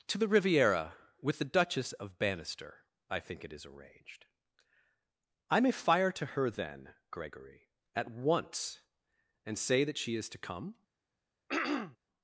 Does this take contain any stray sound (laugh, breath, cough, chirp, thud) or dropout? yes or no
yes